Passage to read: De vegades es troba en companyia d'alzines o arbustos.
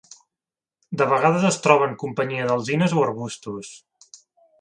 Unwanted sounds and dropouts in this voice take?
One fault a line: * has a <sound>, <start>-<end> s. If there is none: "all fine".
all fine